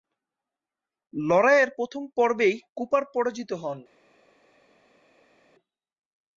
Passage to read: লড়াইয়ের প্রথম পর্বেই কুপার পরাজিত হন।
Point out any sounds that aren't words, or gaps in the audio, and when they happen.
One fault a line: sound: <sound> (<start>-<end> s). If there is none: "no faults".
no faults